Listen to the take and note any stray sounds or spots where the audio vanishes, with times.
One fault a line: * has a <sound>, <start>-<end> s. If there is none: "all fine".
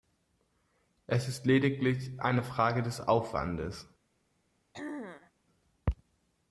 * has a throat clearing, 4.7-5.3 s